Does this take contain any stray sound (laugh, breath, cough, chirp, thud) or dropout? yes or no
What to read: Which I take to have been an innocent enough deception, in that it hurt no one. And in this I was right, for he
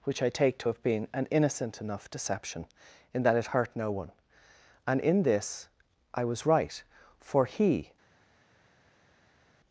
no